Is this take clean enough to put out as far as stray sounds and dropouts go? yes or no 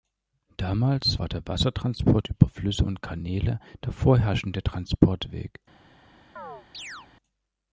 no